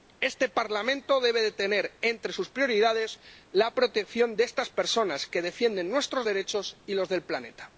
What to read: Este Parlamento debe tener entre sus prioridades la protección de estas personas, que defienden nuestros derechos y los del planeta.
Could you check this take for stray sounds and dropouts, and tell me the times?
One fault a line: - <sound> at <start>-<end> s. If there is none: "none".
none